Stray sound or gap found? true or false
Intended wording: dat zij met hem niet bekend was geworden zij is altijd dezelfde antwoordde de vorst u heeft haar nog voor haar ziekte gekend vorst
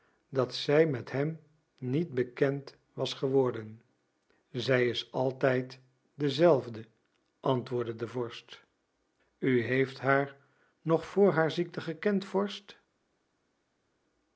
false